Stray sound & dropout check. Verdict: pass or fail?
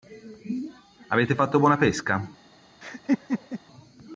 fail